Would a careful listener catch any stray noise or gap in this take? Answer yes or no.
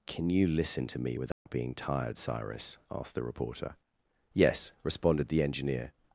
yes